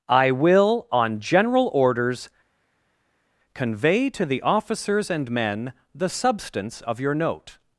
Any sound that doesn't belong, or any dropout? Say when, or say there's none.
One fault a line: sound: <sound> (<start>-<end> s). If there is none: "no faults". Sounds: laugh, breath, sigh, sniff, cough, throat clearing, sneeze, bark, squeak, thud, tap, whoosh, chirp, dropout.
no faults